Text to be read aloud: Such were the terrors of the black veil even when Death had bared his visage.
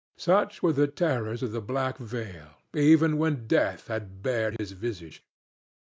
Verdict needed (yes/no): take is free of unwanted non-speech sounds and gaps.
no